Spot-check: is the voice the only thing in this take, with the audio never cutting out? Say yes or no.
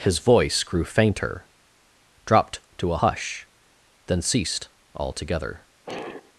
no